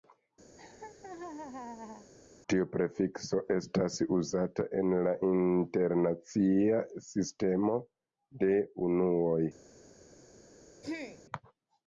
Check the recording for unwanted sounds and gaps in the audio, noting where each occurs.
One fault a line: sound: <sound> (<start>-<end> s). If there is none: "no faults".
sound: laugh (0.6-2.1 s)
sound: throat clearing (10.8-11.2 s)